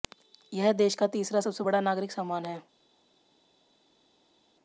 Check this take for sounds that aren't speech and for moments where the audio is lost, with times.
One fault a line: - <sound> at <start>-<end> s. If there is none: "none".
none